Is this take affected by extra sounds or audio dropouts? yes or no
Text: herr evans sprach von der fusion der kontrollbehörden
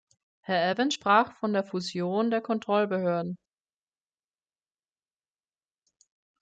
no